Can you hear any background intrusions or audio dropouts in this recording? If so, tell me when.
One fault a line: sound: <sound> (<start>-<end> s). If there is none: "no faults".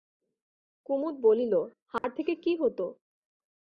sound: dropout (2.0-2.0 s)